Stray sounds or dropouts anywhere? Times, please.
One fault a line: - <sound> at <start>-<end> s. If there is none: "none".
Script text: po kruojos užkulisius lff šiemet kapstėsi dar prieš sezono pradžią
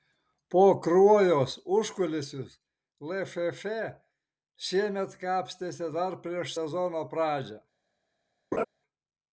- laugh at 8.5-8.6 s